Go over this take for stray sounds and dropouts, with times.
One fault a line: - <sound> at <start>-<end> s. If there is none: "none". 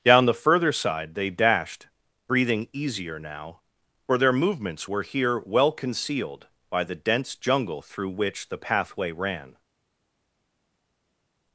none